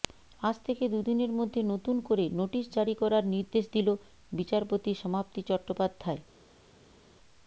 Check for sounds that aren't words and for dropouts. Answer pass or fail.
pass